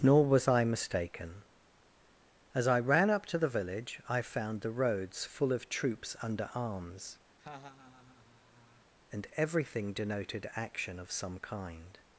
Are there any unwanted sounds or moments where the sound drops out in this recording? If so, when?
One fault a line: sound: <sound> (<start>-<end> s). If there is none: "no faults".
sound: laugh (7.4-8.9 s)